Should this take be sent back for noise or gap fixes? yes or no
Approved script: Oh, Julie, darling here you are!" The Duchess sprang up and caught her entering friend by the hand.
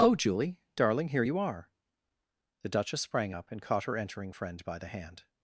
no